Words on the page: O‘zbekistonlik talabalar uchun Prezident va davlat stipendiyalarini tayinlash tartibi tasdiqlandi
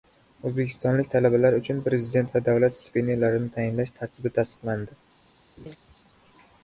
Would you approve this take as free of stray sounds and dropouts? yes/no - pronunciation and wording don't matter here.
no